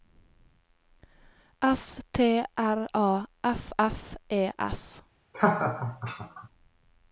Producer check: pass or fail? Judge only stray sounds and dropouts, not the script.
fail